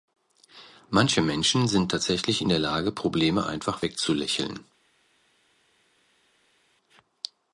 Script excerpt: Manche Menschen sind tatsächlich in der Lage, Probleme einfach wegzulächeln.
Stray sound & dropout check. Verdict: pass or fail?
pass